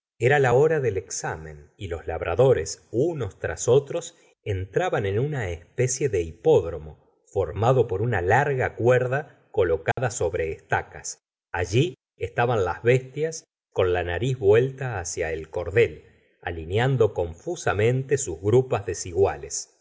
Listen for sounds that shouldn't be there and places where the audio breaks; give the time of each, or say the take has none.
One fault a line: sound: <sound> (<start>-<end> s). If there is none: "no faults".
sound: dropout (9.9-10.0 s)